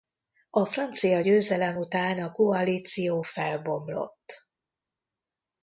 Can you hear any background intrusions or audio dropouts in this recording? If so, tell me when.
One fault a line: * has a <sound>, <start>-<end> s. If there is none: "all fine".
all fine